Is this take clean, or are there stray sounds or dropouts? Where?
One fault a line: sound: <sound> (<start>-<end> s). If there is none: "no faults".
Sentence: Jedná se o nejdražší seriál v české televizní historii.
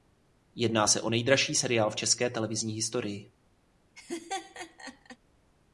sound: laugh (4.0-5.2 s)